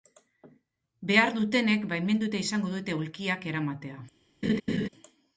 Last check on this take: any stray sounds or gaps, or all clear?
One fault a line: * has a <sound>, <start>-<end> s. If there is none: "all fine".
* has a laugh, 4.4-4.9 s